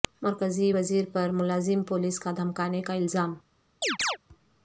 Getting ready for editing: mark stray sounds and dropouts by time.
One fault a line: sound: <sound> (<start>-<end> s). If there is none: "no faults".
sound: chirp (3.8-4.2 s)